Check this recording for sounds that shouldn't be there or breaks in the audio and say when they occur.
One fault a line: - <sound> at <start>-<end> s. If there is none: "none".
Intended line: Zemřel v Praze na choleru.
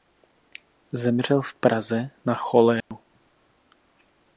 - dropout at 2.8-2.9 s